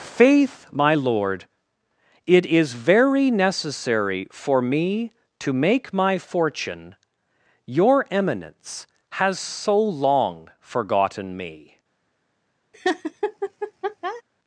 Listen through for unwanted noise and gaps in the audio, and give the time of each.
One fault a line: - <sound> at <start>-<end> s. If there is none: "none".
- laugh at 12.7-14.2 s